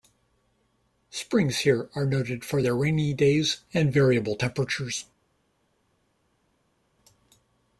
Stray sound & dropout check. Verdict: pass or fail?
pass